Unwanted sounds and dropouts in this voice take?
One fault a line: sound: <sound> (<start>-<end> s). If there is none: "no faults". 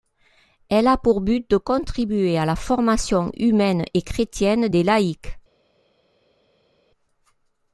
no faults